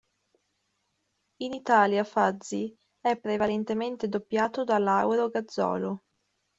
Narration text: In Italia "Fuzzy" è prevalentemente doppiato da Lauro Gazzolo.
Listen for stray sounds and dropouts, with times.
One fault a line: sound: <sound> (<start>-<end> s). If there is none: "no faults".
no faults